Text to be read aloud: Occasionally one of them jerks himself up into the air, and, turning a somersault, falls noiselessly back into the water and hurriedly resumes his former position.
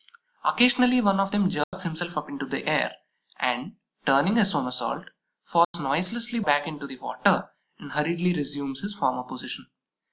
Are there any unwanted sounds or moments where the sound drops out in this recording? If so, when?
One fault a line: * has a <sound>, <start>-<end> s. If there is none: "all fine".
* has a dropout, 1.6-1.7 s
* has a dropout, 5.6-5.7 s